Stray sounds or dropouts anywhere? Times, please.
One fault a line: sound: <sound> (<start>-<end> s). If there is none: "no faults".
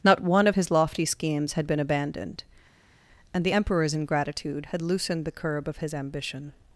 no faults